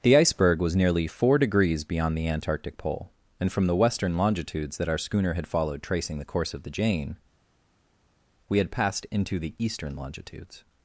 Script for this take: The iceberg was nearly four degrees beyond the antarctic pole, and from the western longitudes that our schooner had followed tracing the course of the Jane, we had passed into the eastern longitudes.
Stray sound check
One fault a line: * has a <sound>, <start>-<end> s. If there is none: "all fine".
all fine